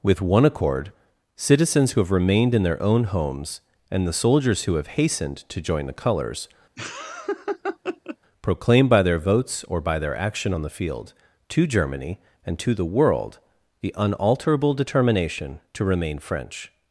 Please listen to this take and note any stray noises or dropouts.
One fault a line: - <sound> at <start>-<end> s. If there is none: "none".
- laugh at 6.8-8.2 s